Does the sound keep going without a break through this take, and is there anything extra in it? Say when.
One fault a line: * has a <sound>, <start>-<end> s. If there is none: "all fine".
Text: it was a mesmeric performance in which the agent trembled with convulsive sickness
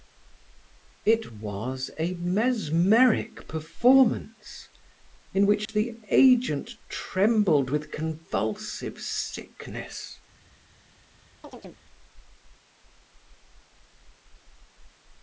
* has a dropout, 5.7-5.7 s
* has a chirp, 11.4-11.8 s